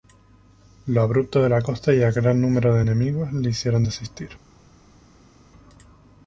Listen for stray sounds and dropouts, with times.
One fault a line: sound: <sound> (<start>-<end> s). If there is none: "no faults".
no faults